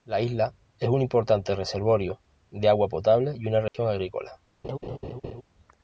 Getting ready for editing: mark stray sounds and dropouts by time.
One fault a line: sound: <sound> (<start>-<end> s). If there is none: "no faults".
sound: dropout (3.7-3.7 s)
sound: laugh (4.6-5.4 s)